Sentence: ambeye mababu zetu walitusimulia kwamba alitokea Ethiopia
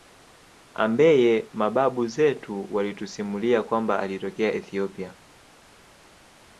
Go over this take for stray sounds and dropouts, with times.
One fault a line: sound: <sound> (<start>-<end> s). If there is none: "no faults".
no faults